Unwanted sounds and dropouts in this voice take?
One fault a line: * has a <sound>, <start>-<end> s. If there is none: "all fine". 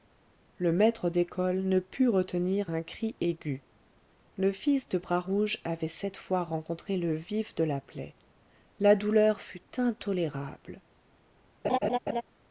* has a laugh, 11.6-12.2 s